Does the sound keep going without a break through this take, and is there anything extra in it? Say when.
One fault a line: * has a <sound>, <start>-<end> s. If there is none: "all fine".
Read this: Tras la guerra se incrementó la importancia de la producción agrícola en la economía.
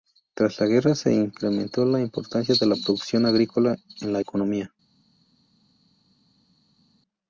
all fine